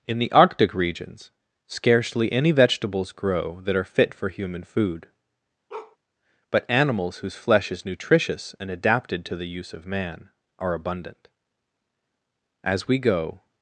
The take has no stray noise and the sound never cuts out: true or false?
false